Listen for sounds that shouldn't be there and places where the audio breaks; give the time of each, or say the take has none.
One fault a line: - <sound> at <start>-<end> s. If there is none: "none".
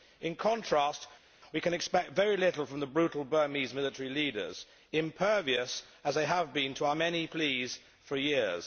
none